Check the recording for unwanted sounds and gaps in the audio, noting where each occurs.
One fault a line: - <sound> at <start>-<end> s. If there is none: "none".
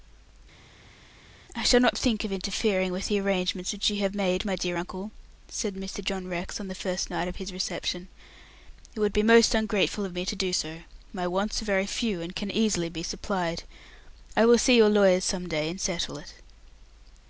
none